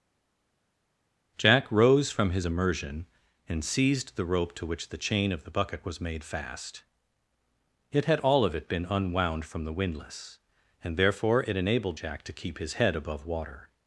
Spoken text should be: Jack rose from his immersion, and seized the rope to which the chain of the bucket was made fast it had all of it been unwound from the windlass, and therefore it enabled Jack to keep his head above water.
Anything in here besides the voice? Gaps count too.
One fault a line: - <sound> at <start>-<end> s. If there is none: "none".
none